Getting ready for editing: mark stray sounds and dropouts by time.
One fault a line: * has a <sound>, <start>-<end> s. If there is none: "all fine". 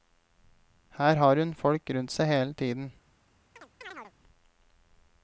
* has a chirp, 3.6-4.1 s